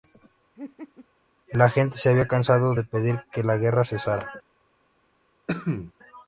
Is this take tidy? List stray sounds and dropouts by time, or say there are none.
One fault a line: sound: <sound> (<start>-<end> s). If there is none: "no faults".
sound: laugh (0.6-1.1 s)
sound: cough (5.5-5.9 s)